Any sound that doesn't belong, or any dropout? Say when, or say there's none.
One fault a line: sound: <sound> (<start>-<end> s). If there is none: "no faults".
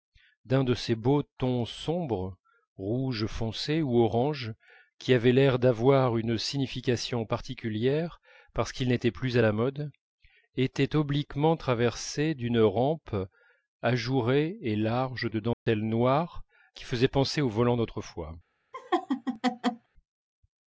sound: dropout (15.5-15.7 s)
sound: laugh (18.7-19.9 s)